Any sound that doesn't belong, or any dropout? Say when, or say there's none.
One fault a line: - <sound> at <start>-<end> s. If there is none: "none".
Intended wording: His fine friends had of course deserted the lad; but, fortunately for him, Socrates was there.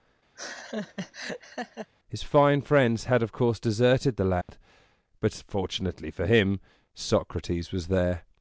- laugh at 0.3-1.9 s
- dropout at 4.4-4.5 s